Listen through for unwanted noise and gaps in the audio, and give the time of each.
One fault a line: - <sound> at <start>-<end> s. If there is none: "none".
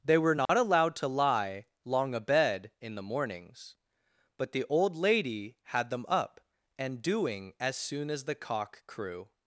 - dropout at 0.5-0.5 s